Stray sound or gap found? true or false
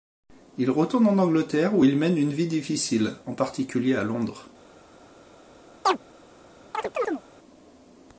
true